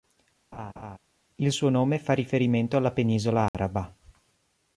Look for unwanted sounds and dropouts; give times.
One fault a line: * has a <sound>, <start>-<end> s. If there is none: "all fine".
* has a laugh, 0.5-1.0 s
* has a dropout, 3.5-3.5 s